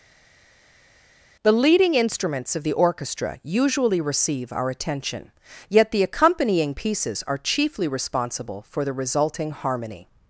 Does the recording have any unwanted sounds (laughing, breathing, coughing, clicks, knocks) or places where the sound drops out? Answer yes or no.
no